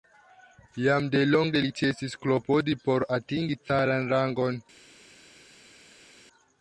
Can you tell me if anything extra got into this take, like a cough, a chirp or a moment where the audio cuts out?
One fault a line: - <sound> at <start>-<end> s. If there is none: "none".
none